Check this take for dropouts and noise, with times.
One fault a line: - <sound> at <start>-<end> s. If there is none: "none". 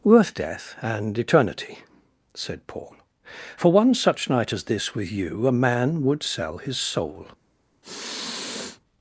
- sniff at 7.8-8.8 s